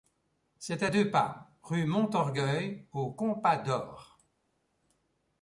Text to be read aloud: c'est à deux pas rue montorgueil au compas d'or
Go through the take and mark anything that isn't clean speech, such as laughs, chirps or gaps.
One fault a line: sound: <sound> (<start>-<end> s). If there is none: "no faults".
no faults